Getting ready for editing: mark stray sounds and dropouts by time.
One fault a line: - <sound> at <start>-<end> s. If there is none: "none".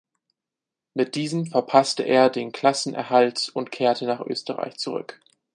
none